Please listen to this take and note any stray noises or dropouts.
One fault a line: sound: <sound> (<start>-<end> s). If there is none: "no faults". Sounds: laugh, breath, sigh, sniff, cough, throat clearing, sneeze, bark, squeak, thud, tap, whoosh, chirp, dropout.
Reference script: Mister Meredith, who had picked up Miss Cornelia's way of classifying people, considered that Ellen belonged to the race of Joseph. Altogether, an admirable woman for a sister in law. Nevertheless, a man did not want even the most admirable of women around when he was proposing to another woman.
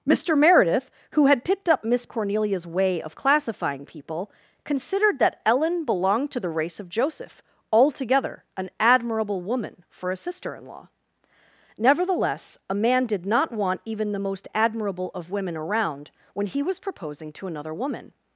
no faults